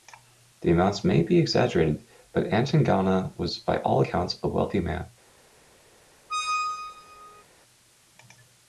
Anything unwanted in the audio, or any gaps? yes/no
yes